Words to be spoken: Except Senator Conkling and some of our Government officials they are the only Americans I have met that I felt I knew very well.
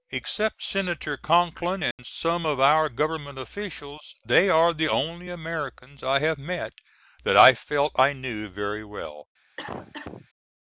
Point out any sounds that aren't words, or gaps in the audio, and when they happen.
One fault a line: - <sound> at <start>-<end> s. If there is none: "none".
- dropout at 1.9-2.0 s
- cough at 9.6-10.3 s